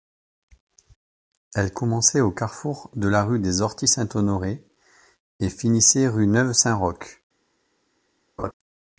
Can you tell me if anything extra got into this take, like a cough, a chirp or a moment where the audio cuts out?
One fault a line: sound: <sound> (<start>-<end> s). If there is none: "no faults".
sound: laugh (8.4-8.5 s)